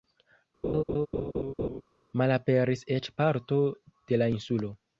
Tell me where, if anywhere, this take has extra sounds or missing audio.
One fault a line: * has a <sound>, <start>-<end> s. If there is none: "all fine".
* has a laugh, 0.6-1.8 s